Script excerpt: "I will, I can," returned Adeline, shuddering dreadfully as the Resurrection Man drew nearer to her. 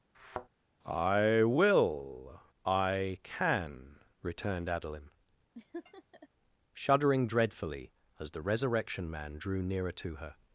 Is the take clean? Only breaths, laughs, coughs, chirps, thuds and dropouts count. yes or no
no